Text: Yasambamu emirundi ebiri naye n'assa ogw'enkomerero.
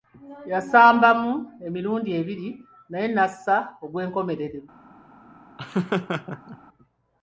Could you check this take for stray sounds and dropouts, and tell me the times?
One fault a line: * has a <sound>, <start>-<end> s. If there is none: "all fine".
* has a laugh, 5.6-6.6 s